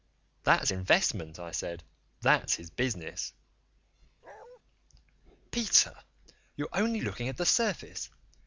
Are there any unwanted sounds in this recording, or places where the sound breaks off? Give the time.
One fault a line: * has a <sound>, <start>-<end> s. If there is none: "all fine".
* has a bark, 4.2-4.6 s